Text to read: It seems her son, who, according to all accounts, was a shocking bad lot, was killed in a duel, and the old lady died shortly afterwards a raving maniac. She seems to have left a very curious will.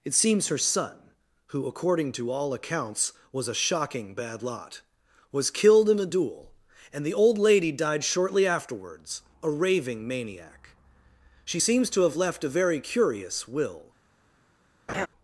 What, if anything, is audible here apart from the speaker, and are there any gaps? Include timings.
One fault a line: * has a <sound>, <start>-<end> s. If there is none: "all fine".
* has a laugh, 14.9-15.1 s